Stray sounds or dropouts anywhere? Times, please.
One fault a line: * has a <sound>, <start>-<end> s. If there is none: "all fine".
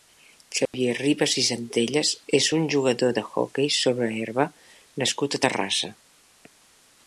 * has a dropout, 0.7-0.7 s